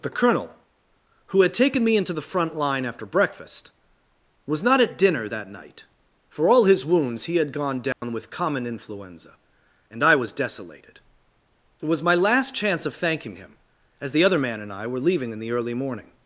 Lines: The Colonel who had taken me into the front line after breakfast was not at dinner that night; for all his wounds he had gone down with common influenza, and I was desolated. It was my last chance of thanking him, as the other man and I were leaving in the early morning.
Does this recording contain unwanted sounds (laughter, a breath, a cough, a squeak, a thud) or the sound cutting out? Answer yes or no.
yes